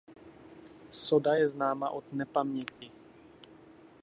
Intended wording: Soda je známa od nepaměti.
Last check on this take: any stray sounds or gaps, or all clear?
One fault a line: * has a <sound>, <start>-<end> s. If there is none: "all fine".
* has a dropout, 2.7-2.8 s